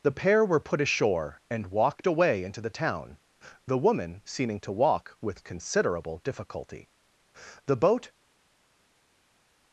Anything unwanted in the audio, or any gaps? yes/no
no